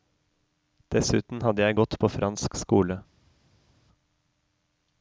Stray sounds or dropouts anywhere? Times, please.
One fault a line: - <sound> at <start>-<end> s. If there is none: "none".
none